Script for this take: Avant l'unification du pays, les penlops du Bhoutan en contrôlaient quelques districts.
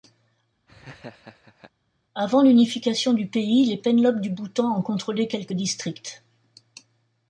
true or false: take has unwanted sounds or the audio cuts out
true